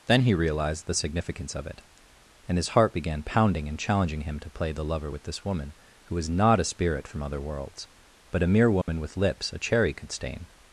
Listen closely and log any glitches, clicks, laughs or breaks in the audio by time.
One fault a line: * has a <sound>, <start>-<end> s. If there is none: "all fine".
* has a dropout, 8.8-8.9 s